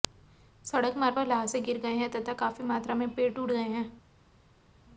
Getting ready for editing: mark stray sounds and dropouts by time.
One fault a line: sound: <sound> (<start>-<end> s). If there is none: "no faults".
no faults